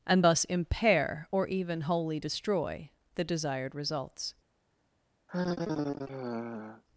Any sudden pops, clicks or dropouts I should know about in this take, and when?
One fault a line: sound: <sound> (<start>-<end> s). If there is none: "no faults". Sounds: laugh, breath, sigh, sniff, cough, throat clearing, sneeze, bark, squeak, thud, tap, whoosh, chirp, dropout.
sound: sigh (5.3-6.8 s)